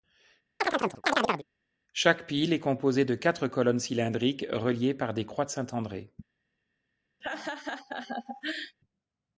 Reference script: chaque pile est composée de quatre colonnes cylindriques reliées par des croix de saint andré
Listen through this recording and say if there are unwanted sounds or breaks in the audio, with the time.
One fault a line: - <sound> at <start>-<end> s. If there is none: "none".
- chirp at 0.6-1.5 s
- laugh at 7.2-8.8 s